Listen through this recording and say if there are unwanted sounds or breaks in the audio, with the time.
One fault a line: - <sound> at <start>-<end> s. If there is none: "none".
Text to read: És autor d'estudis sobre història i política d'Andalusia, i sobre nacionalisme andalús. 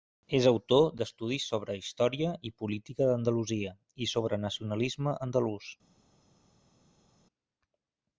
none